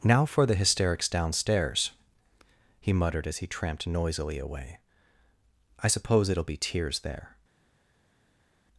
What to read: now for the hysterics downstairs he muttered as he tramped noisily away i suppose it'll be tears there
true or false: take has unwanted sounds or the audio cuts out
false